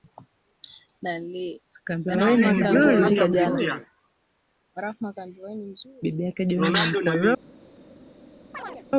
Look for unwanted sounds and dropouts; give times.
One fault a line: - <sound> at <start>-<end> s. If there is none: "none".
- chirp at 8.5-8.9 s